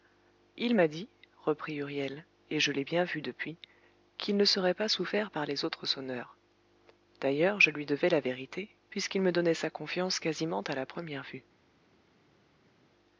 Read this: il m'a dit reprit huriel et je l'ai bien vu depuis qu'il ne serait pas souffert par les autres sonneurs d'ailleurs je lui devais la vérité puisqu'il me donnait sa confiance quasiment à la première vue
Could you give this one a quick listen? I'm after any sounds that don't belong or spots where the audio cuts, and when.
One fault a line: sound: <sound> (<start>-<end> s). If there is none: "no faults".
no faults